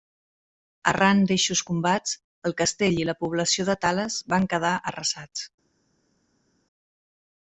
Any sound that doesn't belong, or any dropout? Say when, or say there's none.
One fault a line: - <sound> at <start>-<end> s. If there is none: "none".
none